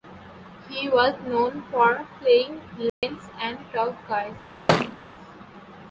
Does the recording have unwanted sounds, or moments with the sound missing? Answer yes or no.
yes